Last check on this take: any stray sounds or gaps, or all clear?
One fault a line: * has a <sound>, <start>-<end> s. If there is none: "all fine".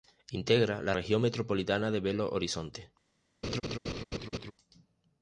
* has a laugh, 3.4-4.5 s